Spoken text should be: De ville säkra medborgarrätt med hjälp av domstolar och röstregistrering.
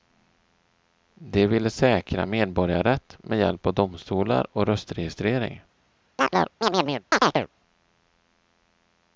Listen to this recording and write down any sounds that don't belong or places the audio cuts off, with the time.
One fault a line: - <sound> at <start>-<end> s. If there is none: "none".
- chirp at 6.2-7.5 s